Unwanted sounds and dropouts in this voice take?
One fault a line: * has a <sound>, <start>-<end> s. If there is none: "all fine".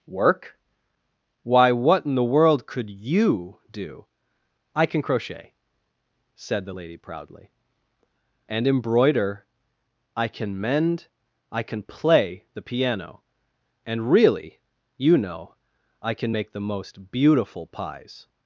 all fine